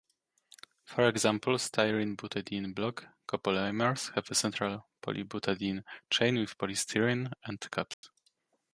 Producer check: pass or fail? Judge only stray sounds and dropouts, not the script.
fail